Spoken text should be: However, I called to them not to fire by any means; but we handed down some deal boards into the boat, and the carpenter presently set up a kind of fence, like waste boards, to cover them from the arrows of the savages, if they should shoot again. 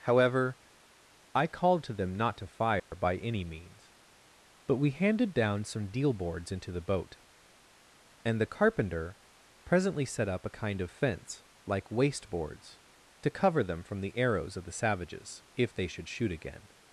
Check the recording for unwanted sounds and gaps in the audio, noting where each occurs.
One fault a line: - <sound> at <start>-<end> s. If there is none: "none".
- dropout at 2.8-2.9 s